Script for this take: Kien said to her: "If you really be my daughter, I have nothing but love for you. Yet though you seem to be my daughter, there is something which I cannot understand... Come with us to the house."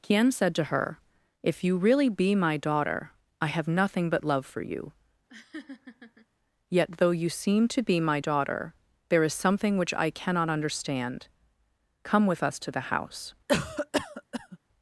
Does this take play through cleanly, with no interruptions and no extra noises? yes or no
no